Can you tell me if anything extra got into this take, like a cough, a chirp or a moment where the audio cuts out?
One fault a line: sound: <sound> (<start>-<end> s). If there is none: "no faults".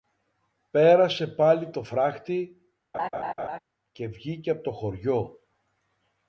sound: laugh (2.9-3.6 s)